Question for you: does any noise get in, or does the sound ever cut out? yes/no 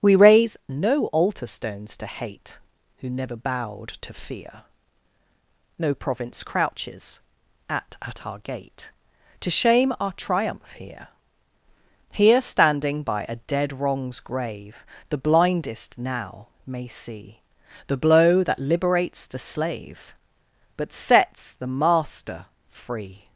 no